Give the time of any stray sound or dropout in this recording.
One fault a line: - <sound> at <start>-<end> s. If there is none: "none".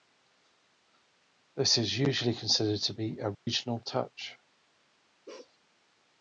- dropout at 3.3-3.5 s
- bark at 5.3-5.6 s